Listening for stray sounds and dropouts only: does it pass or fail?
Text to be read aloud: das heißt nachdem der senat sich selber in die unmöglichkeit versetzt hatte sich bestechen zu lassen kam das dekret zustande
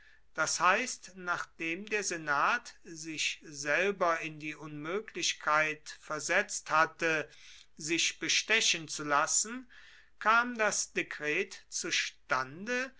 pass